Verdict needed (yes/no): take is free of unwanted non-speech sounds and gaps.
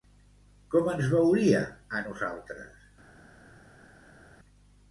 yes